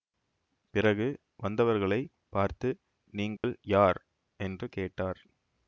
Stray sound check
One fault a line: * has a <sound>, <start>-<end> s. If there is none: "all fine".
* has a dropout, 3.4-3.4 s